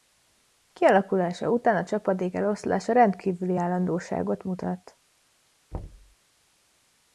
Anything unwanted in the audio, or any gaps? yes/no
yes